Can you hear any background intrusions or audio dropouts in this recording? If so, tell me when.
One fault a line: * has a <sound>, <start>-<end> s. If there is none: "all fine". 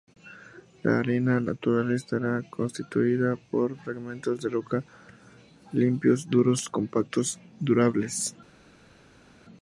all fine